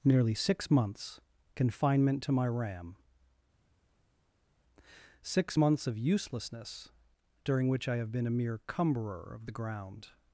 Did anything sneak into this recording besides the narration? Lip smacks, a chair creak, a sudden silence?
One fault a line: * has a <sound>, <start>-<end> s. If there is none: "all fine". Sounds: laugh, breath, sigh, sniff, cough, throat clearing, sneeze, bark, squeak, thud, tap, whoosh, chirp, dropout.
all fine